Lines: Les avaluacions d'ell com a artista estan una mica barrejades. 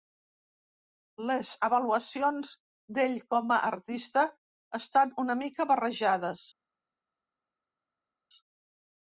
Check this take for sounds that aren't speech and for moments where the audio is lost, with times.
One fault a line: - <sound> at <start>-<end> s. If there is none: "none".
none